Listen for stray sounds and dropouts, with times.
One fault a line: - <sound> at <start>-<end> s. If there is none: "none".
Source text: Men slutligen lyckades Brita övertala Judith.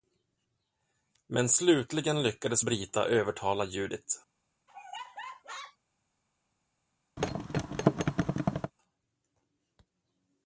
- laugh at 4.7-5.8 s
- thud at 7.2-8.7 s